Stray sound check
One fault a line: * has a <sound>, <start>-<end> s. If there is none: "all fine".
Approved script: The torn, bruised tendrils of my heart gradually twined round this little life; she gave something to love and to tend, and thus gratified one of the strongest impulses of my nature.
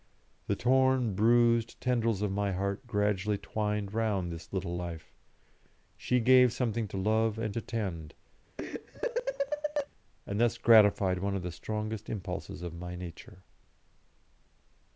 * has a laugh, 8.6-9.9 s